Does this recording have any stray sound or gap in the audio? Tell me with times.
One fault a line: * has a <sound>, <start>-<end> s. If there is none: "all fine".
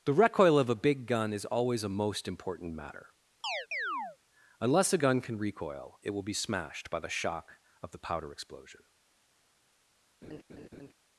* has a chirp, 3.4-4.2 s
* has a laugh, 10.2-10.9 s